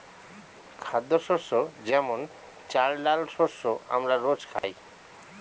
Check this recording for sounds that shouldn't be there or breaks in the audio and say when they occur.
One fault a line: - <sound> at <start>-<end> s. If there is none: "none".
- dropout at 4.6-4.6 s